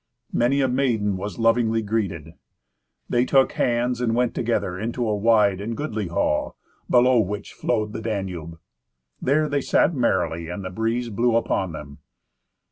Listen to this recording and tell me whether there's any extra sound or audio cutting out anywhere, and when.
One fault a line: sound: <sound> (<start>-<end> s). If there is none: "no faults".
no faults